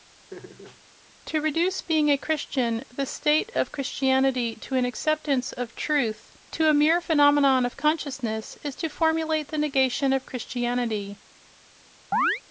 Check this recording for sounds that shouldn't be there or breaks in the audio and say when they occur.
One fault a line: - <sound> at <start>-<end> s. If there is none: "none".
- laugh at 0.3-0.8 s
- chirp at 12.1-12.4 s